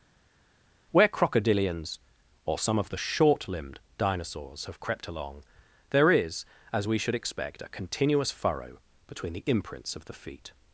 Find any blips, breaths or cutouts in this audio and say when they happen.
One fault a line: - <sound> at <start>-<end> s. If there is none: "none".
none